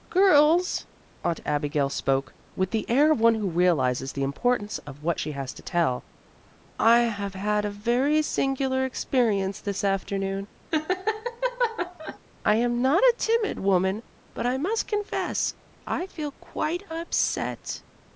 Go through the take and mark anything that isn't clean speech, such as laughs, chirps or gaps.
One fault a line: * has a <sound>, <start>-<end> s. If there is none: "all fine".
* has a laugh, 10.7-12.2 s